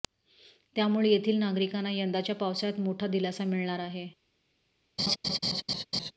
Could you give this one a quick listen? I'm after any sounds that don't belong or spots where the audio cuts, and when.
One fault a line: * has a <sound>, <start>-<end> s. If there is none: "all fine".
* has a laugh, 5.0-6.1 s